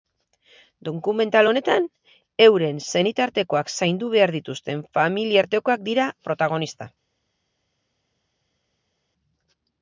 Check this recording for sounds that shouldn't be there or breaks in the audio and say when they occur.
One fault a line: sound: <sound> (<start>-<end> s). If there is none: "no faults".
no faults